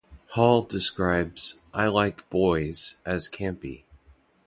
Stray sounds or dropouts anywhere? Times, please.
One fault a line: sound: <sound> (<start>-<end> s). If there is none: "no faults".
no faults